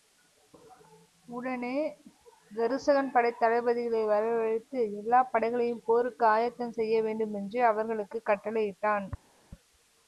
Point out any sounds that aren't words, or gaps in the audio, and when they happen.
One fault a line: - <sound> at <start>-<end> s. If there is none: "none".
none